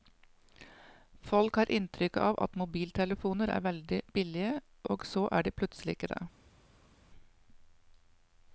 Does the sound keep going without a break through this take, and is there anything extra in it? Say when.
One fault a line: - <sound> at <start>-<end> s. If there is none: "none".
none